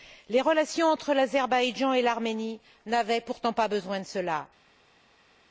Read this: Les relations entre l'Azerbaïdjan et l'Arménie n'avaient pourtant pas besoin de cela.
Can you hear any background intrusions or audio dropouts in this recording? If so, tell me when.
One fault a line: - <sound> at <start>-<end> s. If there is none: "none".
none